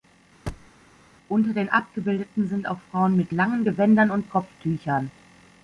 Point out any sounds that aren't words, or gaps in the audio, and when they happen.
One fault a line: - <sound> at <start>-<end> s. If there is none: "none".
- thud at 0.5-0.7 s